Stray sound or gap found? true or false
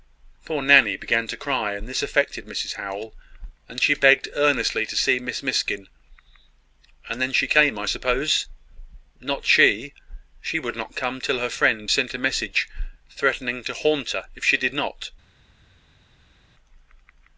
false